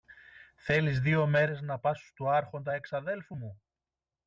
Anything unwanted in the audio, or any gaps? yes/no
no